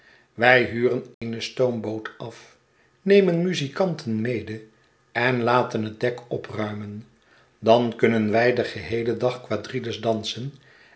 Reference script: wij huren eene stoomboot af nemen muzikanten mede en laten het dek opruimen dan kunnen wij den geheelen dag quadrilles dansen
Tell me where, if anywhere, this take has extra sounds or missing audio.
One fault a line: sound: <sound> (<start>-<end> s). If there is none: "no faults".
sound: dropout (1.1-1.2 s)